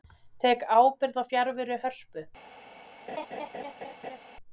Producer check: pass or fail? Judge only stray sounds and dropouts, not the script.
fail